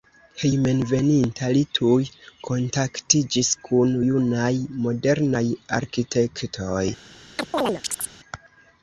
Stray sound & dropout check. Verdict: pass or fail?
fail